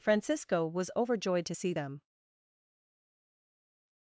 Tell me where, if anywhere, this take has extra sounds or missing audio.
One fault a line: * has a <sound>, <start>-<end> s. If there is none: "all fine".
all fine